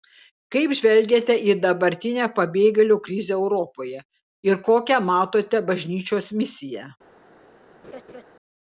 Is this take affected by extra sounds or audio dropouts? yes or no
yes